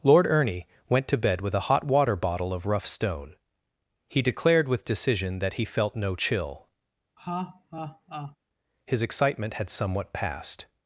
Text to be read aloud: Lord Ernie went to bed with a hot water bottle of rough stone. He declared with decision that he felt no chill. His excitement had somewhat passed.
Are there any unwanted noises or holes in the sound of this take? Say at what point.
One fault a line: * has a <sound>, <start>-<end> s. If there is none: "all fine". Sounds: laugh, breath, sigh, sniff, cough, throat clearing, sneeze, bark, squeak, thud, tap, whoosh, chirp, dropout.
* has a laugh, 7.2-8.4 s